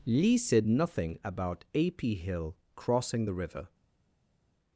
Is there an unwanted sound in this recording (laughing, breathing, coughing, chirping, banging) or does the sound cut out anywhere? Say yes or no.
no